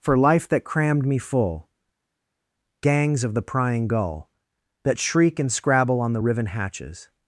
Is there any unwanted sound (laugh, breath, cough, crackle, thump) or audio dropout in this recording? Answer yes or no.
no